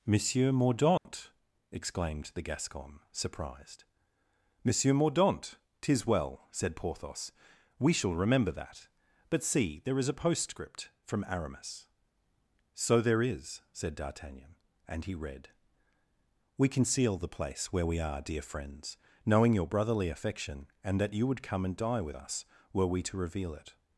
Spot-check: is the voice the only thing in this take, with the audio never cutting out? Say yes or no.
no